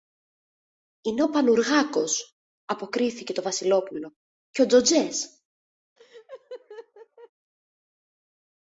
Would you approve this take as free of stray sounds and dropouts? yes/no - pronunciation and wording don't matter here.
no